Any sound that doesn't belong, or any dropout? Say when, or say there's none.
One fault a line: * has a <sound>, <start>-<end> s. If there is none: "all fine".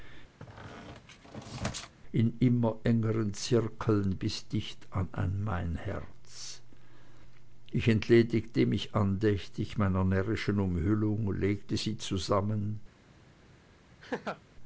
* has a squeak, 0.4-1.9 s
* has a laugh, 14.0-14.4 s